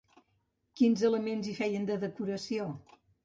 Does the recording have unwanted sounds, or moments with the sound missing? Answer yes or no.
no